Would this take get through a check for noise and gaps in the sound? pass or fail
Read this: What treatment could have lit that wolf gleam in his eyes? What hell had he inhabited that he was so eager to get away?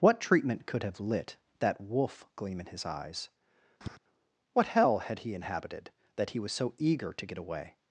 fail